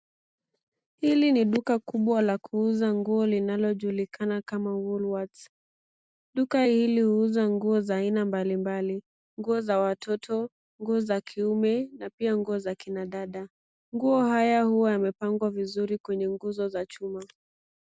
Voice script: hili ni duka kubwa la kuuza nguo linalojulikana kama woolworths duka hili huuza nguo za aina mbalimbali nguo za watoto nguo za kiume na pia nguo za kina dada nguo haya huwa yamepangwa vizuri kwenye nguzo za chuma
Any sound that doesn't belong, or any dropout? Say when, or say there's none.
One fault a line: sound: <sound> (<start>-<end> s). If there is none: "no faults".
no faults